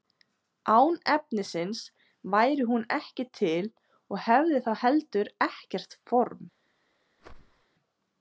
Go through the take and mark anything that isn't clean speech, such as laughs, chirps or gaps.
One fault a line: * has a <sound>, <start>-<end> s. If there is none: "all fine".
* has a whoosh, 7.2-7.7 s